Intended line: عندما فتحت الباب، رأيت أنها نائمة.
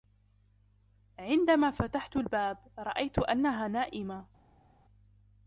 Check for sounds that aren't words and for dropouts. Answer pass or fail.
pass